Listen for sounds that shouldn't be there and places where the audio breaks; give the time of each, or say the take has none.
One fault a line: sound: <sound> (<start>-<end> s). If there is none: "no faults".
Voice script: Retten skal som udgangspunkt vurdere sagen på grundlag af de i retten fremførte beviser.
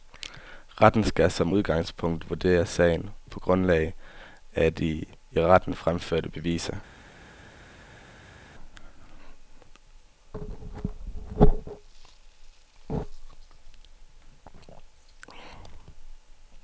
no faults